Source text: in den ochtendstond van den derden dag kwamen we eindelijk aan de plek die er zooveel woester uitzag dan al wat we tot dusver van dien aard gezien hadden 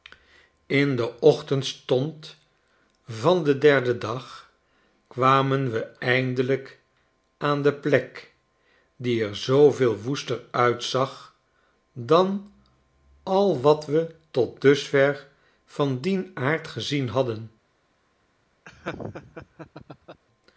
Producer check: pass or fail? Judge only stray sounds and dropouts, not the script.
fail